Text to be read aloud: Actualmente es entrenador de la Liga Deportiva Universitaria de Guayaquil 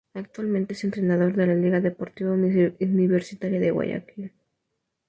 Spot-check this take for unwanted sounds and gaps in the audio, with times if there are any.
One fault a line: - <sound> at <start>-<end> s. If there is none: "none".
none